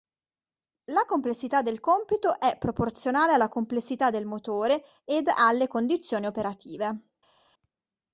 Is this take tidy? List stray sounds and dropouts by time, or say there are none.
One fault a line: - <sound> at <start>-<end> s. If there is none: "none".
none